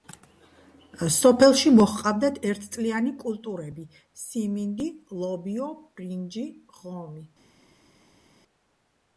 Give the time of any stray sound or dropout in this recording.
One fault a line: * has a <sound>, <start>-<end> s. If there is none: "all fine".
all fine